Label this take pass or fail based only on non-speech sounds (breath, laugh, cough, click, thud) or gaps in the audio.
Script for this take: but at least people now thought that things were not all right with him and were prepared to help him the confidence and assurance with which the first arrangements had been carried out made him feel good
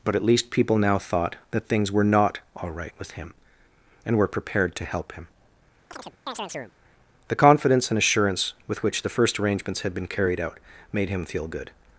fail